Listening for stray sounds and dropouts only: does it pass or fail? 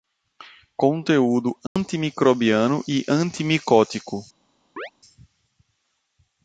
fail